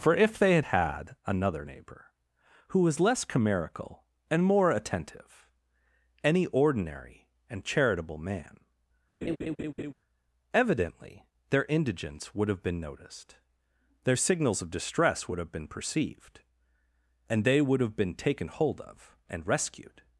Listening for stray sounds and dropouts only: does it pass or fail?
fail